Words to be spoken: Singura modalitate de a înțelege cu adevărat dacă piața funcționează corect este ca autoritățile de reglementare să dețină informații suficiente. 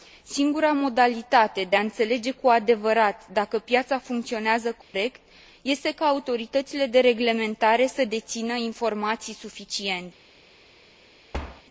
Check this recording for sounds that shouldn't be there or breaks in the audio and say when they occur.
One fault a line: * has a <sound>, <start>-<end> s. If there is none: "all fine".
* has a dropout, 4.8-4.9 s
* has a thud, 11.3-11.6 s